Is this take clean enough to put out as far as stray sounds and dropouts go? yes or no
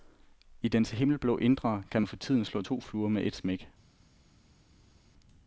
yes